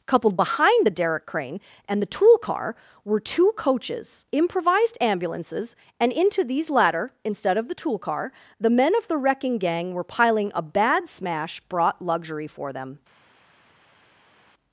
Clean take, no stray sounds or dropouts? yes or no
yes